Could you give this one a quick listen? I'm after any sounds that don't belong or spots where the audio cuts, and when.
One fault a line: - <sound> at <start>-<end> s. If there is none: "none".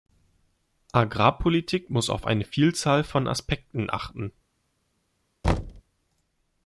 - thud at 5.4-5.8 s